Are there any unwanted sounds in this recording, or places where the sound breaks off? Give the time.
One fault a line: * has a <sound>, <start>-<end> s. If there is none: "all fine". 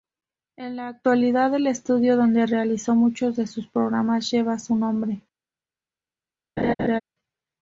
* has a laugh, 6.6-7.0 s